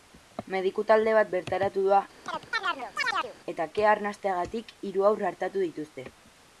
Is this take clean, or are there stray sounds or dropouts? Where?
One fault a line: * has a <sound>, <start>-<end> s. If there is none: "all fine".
* has a chirp, 2.3-3.4 s